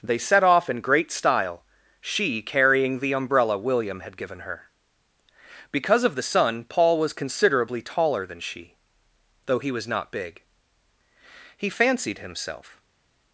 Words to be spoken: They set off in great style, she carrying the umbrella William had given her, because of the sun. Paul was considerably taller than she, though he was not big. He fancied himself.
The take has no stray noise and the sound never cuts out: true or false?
true